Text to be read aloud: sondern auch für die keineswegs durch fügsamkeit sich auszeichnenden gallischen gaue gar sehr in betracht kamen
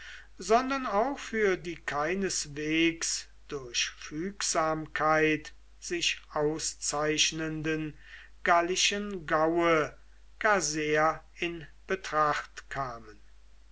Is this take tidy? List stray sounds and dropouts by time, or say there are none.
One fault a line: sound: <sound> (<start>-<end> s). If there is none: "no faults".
no faults